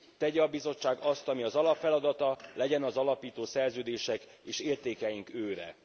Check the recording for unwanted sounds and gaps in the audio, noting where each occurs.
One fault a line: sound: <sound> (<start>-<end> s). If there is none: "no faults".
no faults